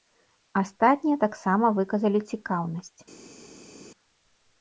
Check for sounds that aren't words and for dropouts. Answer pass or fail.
pass